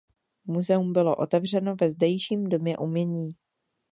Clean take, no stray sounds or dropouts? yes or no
yes